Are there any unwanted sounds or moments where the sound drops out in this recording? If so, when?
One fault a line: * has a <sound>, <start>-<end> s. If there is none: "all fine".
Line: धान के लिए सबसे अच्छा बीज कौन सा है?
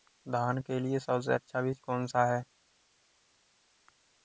all fine